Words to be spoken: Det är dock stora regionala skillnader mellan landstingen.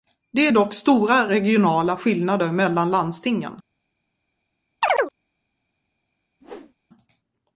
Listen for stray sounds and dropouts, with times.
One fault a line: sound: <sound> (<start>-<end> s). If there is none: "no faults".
sound: chirp (4.8-5.1 s)
sound: whoosh (6.4-6.8 s)